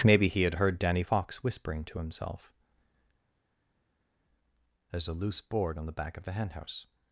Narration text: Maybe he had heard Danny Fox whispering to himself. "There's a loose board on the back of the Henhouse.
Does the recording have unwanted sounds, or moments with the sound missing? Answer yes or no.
no